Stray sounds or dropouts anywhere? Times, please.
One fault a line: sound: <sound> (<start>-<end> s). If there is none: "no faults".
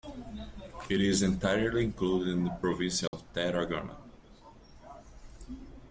sound: dropout (3.1-3.1 s)